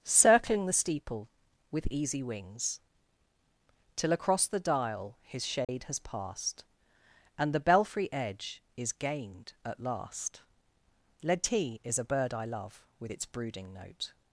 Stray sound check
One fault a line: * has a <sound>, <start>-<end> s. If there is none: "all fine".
* has a dropout, 5.6-5.7 s